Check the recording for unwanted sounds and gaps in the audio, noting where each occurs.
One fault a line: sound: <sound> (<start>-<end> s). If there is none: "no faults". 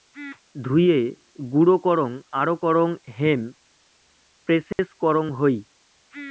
sound: dropout (4.7-4.8 s)